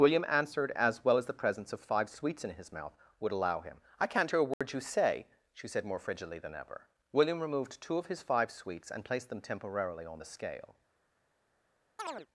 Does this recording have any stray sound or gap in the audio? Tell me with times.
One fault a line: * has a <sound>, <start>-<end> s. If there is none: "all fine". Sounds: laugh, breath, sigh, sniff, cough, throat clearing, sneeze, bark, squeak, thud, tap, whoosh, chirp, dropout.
* has a dropout, 4.5-4.6 s
* has a chirp, 12.0-12.3 s